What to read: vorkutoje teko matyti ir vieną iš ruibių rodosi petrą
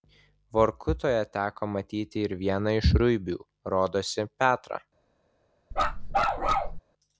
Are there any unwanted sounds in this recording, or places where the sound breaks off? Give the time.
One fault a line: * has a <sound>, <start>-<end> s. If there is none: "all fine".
* has a bark, 5.7-6.8 s